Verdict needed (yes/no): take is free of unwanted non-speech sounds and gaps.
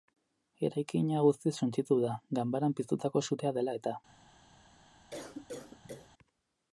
no